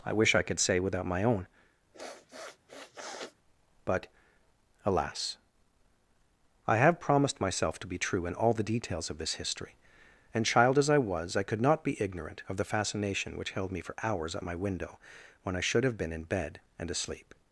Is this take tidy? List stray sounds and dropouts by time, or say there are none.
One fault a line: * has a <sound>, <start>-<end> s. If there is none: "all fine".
* has a sniff, 1.9-3.4 s